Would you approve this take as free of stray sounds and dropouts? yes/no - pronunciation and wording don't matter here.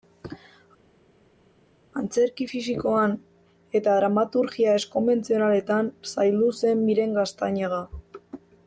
yes